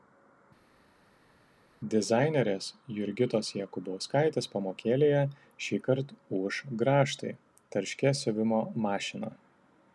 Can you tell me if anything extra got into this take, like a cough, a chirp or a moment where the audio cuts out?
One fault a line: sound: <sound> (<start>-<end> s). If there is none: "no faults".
no faults